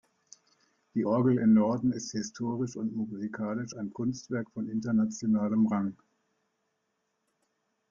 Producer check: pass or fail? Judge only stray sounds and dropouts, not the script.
pass